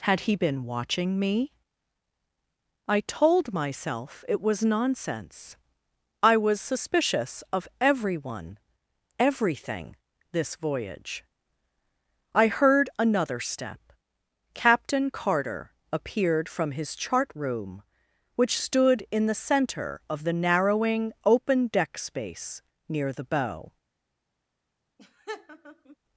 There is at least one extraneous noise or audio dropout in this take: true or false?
true